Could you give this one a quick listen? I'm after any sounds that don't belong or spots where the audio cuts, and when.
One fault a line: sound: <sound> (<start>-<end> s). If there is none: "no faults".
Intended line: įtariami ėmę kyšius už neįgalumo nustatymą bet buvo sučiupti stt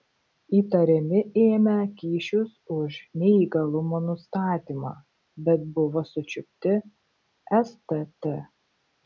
no faults